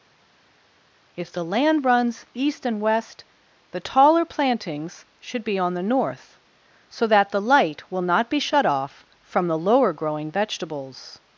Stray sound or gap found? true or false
false